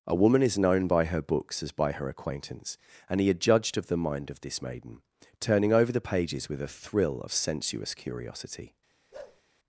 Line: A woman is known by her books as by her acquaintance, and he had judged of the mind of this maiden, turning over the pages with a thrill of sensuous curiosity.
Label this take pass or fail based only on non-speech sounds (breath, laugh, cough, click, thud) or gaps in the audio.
fail